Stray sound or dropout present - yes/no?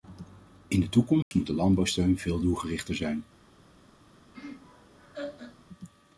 yes